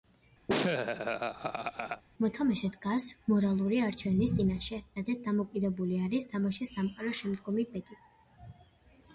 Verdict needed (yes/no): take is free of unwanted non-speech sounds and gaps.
no